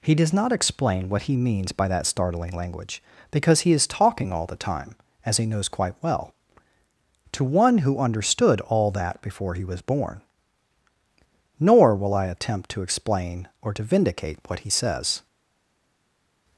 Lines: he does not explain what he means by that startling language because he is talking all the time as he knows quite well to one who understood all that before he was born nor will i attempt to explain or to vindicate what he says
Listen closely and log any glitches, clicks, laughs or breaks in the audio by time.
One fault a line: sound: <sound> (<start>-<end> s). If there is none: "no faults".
no faults